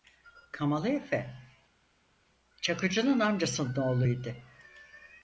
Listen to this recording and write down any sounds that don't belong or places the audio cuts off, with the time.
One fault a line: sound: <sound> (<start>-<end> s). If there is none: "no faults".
no faults